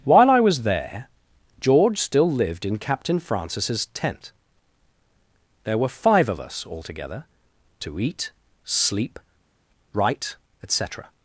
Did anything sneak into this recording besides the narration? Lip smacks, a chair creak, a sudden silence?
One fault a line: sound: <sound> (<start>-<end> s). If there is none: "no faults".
no faults